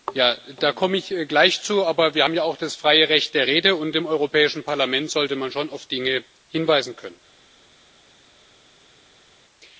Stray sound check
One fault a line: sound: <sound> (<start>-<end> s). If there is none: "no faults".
no faults